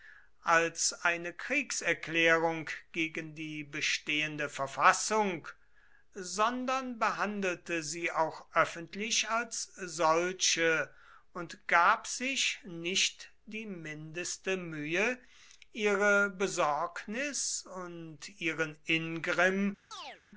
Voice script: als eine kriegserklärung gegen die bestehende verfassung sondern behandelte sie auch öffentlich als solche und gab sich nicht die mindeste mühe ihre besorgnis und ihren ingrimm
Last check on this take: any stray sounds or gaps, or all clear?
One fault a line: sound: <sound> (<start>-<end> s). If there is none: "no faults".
sound: chirp (19.9-20.2 s)